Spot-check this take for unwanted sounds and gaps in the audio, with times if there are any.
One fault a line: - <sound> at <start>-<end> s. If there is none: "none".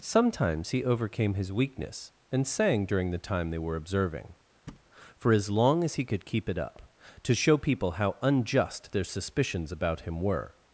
- thud at 4.7-4.9 s